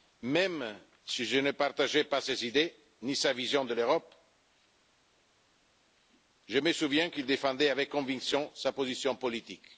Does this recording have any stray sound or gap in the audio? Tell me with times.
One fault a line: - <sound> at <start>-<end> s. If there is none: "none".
none